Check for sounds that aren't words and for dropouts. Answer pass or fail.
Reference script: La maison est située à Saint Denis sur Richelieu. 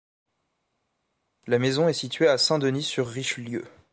pass